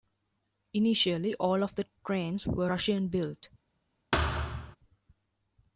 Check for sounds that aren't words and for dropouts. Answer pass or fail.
fail